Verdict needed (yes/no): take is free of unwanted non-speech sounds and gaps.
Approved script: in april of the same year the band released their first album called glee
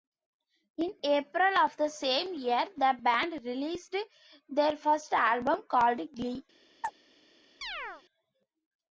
no